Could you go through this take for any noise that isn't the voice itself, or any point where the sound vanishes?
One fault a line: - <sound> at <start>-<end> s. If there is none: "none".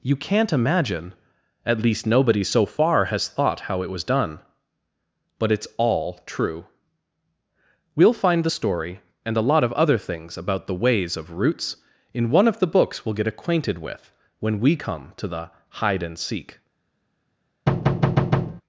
- thud at 17.7-18.6 s